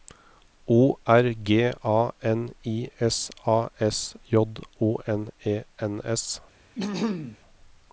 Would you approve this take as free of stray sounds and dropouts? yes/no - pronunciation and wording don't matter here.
no